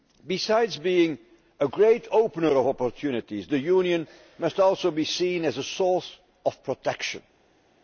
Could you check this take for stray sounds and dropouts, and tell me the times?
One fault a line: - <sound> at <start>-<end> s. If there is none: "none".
none